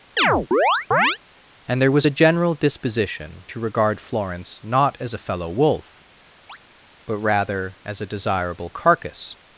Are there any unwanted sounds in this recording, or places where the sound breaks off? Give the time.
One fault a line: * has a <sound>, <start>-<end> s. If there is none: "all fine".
* has a chirp, 0.2-1.2 s
* has a chirp, 6.5-6.6 s